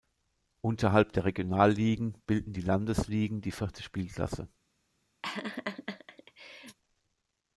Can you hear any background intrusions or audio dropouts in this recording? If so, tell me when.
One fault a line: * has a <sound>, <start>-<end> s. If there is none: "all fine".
* has a laugh, 5.2-6.8 s